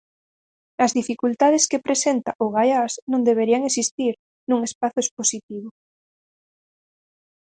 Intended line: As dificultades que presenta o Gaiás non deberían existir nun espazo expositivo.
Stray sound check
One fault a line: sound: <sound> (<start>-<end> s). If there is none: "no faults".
no faults